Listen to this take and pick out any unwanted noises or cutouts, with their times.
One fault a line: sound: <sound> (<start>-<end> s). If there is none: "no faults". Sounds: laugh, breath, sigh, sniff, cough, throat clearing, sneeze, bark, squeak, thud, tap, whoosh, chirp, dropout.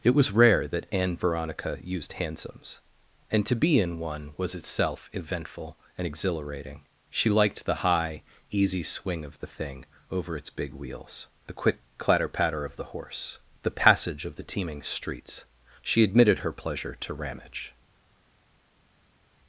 no faults